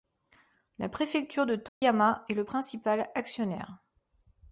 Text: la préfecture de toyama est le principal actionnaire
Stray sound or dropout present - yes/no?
yes